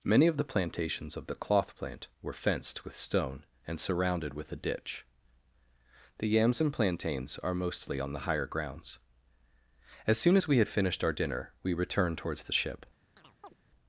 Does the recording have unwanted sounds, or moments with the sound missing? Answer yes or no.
yes